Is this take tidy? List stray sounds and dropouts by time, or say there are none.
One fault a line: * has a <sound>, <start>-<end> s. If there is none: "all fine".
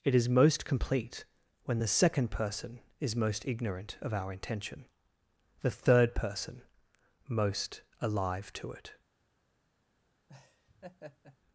* has a laugh, 10.3-11.4 s